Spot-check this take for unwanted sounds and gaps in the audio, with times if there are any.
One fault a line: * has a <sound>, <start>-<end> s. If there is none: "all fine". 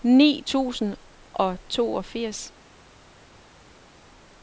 all fine